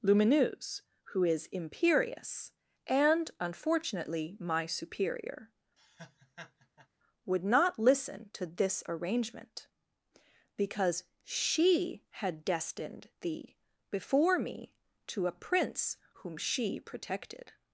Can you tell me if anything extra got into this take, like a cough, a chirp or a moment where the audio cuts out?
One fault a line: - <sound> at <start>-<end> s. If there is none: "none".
- laugh at 5.8-6.9 s